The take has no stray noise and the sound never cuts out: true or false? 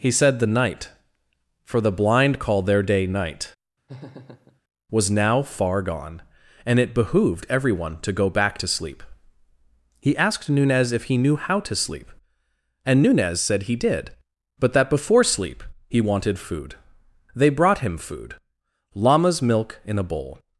false